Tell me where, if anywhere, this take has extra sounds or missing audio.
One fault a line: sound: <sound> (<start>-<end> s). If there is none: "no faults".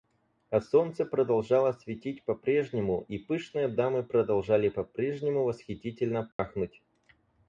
sound: dropout (6.3-6.4 s)